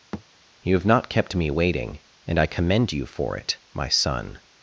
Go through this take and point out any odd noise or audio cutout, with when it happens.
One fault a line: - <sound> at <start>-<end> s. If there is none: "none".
- thud at 0.1-0.2 s